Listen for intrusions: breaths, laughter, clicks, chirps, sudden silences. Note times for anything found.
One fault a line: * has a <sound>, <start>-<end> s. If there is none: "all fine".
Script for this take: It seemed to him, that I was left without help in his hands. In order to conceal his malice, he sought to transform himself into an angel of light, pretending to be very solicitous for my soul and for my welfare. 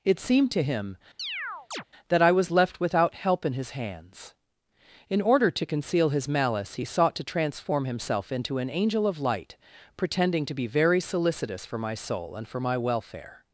* has a chirp, 1.2-1.8 s